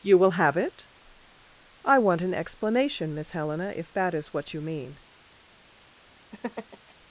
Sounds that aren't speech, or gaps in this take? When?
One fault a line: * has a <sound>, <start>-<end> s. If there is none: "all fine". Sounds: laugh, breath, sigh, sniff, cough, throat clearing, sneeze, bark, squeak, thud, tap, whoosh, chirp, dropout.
* has a laugh, 6.3-6.9 s